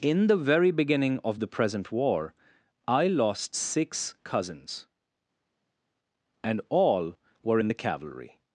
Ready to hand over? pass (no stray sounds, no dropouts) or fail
pass